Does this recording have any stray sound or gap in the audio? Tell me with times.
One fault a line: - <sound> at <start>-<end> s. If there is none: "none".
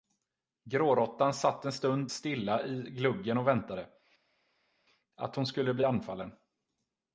none